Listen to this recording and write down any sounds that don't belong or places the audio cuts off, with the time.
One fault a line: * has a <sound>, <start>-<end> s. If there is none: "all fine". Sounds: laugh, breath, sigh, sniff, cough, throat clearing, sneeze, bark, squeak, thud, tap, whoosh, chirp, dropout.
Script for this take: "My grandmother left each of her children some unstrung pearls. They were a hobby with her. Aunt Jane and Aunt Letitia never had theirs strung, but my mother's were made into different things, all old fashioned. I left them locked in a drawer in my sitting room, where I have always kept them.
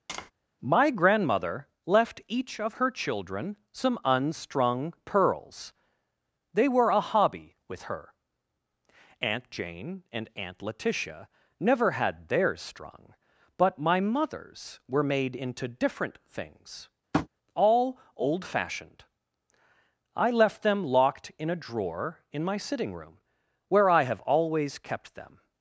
* has a tap, 0.1-0.3 s
* has a tap, 17.1-17.3 s